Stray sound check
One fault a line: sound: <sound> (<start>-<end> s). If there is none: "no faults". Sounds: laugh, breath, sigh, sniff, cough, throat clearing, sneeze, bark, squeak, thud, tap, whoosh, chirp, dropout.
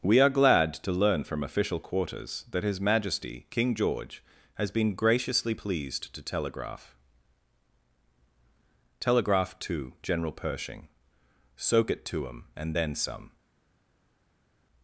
no faults